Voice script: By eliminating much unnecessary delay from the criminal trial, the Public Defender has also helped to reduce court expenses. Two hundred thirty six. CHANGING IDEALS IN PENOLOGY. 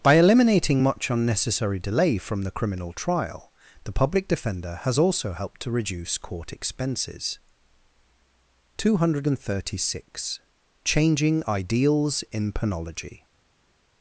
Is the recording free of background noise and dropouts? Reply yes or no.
yes